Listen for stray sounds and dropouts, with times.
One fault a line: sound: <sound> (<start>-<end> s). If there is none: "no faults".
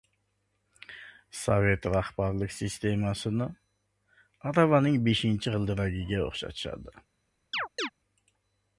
sound: chirp (7.5-7.9 s)